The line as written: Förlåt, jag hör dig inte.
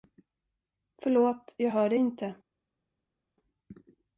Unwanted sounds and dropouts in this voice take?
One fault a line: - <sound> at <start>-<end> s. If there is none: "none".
none